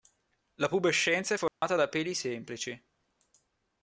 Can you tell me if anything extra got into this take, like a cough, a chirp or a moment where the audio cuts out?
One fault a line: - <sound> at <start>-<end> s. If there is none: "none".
- dropout at 1.5-1.6 s